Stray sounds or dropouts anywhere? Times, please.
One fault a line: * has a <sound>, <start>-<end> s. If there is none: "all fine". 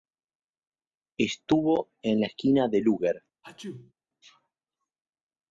* has a sneeze, 3.4-3.9 s